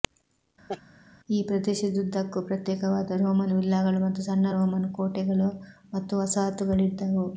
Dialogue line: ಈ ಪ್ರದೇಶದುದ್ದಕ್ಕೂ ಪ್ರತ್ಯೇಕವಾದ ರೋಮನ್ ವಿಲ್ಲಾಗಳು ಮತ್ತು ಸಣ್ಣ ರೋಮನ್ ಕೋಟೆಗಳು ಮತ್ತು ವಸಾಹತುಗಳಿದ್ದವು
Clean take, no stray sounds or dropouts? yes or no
no